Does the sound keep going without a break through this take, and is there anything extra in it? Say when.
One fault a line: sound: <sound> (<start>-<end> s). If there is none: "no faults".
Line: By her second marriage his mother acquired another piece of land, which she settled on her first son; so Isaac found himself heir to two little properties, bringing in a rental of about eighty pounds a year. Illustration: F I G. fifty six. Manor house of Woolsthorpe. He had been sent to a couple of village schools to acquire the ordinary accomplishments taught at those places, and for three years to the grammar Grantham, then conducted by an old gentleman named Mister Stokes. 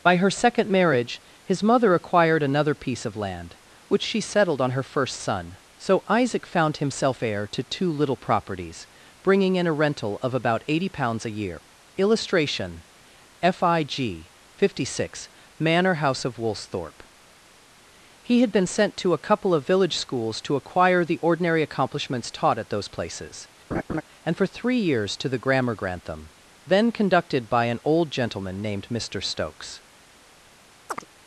sound: laugh (23.7-24.0 s)
sound: chirp (30.9-31.1 s)